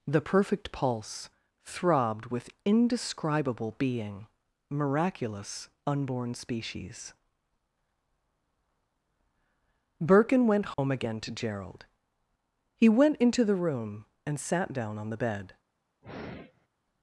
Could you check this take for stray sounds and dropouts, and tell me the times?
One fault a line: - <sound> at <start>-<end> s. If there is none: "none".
- dropout at 10.7-10.8 s
- sigh at 16.0-16.7 s